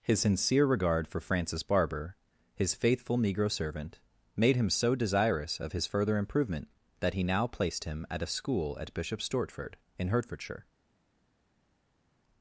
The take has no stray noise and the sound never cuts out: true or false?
true